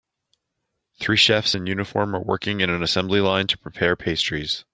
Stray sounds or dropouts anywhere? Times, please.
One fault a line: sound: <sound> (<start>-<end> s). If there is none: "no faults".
no faults